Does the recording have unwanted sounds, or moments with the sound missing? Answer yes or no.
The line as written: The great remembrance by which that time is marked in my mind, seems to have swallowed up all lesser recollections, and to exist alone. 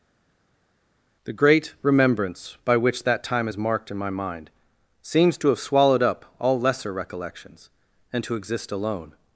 no